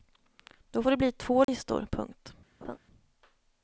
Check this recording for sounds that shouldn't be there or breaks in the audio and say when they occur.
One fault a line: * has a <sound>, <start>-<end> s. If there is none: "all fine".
* has a dropout, 1.4-1.5 s
* has a laugh, 2.6-2.8 s